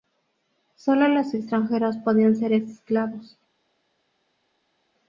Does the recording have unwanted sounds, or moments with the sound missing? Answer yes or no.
no